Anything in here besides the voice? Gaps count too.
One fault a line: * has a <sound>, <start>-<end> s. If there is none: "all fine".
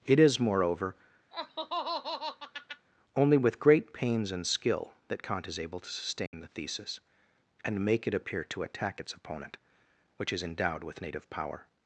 * has a laugh, 1.3-2.9 s
* has a dropout, 6.3-6.3 s